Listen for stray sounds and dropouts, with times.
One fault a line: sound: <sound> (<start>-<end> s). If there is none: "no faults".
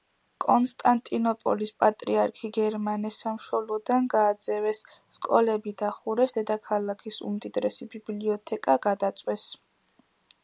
no faults